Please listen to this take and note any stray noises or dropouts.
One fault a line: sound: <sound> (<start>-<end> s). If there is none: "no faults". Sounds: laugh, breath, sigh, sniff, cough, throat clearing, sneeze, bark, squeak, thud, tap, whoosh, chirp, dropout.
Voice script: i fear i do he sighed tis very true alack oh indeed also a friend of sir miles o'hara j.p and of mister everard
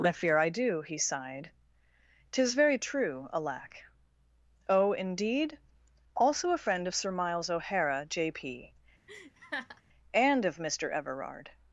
sound: laugh (9.1-9.8 s)